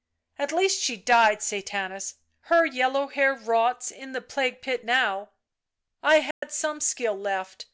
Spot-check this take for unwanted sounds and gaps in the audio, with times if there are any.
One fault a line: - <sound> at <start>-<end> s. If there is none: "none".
- dropout at 6.3-6.4 s